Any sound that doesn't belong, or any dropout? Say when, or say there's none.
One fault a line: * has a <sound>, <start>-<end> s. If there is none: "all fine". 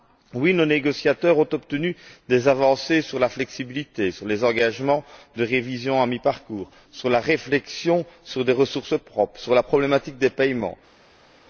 all fine